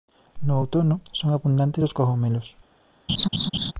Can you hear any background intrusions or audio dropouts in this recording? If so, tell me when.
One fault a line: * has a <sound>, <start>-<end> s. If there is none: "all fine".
* has a laugh, 3.1-3.7 s